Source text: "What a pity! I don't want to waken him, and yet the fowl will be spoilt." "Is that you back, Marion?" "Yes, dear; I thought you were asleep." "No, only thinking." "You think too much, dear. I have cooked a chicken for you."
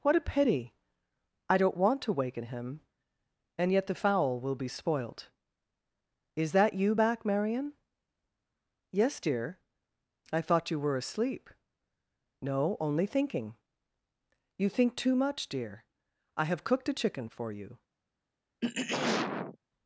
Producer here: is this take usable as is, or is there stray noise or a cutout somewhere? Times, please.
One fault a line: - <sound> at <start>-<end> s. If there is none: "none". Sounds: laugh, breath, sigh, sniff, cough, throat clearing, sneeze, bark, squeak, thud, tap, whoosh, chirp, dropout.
- throat clearing at 18.6-19.6 s